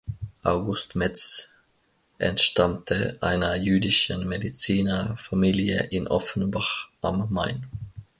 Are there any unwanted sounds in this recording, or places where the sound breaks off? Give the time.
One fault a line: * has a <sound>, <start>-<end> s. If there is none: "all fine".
all fine